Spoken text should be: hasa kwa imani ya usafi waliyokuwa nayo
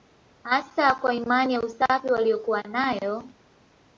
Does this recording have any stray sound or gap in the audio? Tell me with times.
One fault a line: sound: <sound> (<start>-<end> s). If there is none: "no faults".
no faults